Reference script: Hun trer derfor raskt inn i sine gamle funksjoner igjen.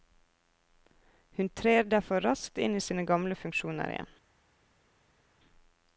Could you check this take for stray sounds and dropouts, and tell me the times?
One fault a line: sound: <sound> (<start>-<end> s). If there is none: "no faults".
no faults